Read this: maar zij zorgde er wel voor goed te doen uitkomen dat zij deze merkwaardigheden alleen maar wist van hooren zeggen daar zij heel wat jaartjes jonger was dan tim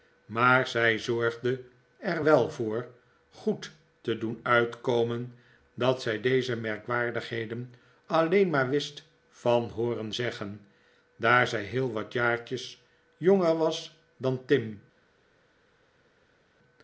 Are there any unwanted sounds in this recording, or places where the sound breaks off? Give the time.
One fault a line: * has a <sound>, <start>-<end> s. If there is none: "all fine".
all fine